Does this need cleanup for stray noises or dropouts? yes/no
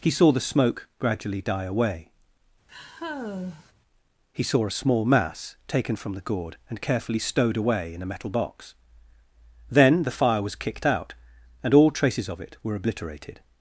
yes